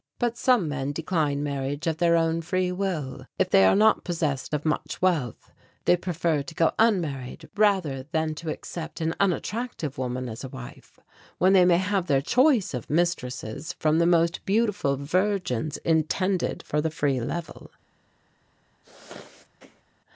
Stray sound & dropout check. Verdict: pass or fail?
fail